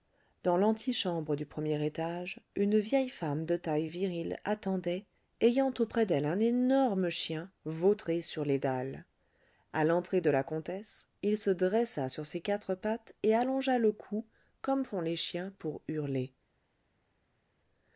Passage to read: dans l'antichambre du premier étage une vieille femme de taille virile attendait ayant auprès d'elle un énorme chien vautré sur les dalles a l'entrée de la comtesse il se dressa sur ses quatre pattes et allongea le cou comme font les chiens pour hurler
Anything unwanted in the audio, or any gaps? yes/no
no